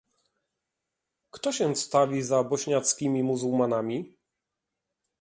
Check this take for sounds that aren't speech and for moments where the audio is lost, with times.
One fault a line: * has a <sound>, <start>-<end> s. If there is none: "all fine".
all fine